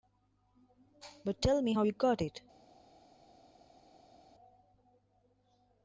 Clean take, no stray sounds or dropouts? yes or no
yes